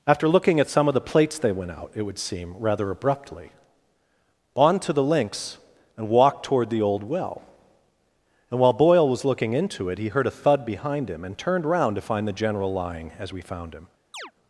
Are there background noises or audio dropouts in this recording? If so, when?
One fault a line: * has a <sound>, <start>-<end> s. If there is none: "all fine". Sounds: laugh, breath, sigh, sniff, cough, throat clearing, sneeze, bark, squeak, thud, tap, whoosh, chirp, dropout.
* has a chirp, 14.1-14.3 s